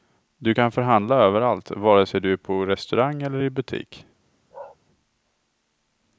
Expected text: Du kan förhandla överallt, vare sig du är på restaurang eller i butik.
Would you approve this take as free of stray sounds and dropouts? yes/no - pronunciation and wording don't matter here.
no